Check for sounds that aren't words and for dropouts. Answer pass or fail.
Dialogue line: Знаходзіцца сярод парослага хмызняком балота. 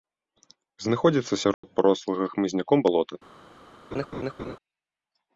fail